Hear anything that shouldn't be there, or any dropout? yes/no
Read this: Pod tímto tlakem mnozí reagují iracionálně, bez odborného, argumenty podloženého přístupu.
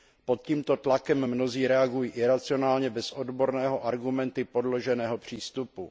no